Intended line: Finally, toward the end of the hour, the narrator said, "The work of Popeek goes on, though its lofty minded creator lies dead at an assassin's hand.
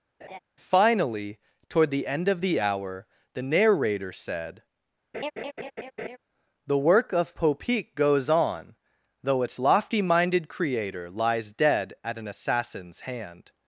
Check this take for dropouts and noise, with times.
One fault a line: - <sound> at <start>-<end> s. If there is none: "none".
- laugh at 0.2-0.4 s
- laugh at 5.1-6.2 s